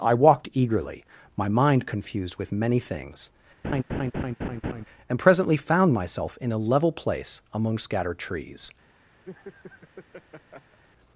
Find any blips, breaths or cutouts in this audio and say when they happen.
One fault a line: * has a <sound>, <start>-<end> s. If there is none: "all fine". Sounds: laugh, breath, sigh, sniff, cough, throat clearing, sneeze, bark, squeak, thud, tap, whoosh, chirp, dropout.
* has a laugh, 3.6-4.8 s
* has a laugh, 9.2-10.8 s